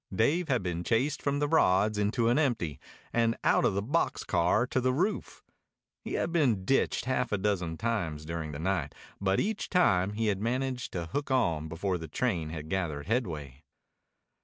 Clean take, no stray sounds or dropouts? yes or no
yes